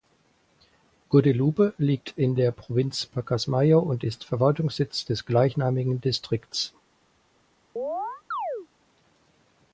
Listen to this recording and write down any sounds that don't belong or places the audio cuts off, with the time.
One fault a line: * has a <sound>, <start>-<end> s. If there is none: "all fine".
* has a chirp, 7.8-8.7 s